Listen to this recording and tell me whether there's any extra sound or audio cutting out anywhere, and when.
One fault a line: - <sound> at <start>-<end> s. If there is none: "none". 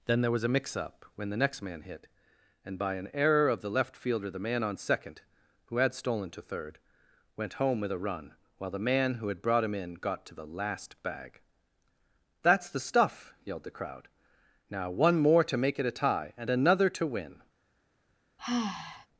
- sigh at 18.4-19.1 s